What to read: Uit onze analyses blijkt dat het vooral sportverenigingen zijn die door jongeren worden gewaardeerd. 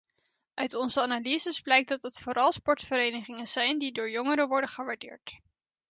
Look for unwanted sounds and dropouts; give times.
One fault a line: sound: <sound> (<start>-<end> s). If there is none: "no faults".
no faults